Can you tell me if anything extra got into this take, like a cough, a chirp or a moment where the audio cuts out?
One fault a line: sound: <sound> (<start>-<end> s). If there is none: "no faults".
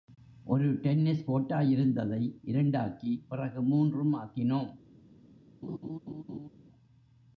sound: laugh (5.6-6.5 s)